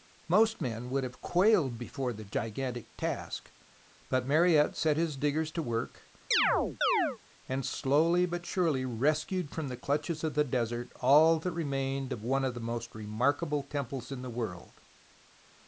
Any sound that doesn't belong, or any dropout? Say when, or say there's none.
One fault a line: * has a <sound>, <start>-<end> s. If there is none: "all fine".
* has a chirp, 6.3-7.2 s